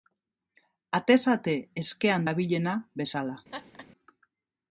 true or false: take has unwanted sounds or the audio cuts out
true